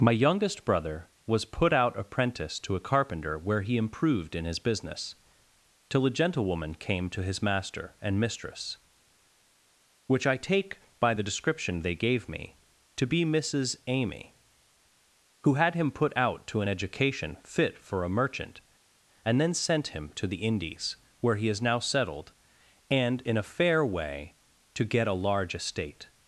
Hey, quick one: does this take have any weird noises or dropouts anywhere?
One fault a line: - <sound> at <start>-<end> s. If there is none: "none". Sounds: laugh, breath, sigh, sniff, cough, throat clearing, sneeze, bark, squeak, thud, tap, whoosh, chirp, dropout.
none